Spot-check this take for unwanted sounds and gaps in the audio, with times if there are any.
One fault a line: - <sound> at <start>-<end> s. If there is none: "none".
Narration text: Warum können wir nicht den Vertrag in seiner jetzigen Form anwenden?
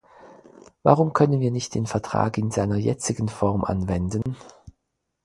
- dropout at 4.2-4.3 s